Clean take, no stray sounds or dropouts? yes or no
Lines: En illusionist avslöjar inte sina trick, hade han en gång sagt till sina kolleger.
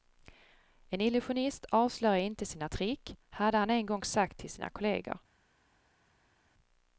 yes